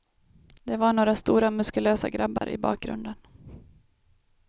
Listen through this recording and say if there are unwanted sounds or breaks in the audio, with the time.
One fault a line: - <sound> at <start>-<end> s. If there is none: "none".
- dropout at 2.4-2.4 s